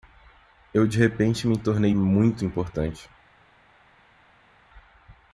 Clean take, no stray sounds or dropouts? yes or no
yes